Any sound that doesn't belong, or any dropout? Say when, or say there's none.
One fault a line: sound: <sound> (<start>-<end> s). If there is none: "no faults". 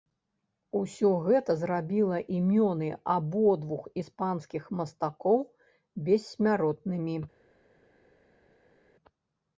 no faults